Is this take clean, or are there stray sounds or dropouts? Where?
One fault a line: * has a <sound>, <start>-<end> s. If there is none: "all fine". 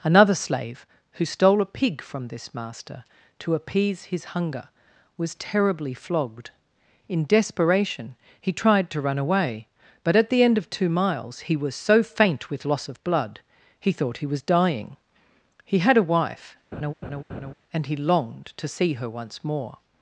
* has a laugh, 16.7-17.5 s